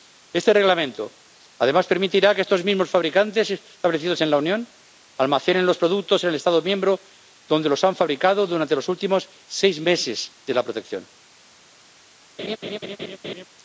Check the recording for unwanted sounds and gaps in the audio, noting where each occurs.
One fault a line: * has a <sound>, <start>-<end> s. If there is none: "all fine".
* has a laugh, 12.4-13.5 s